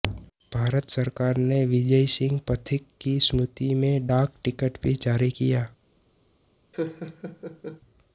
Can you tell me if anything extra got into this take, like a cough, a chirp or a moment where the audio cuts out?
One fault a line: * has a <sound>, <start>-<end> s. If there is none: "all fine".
* has a laugh, 6.7-7.8 s